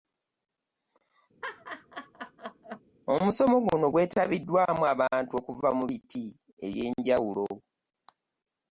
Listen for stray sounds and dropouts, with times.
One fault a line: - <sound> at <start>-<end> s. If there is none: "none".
- laugh at 1.4-2.8 s